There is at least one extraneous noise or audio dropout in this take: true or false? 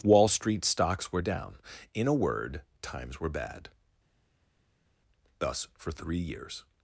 false